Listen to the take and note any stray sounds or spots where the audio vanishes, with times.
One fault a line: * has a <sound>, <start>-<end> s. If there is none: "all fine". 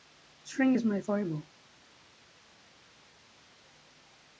all fine